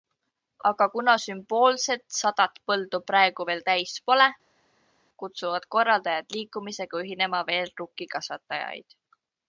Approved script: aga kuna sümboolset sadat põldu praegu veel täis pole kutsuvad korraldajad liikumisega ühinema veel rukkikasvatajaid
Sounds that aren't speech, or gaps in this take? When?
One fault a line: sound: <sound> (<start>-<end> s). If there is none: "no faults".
no faults